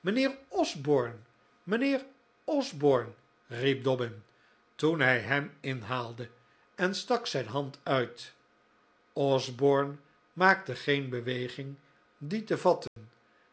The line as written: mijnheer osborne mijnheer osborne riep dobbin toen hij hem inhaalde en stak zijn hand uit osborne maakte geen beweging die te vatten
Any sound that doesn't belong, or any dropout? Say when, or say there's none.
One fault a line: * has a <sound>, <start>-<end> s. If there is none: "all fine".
* has a dropout, 12.9-13.0 s